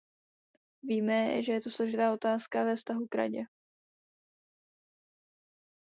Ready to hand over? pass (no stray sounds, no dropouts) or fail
pass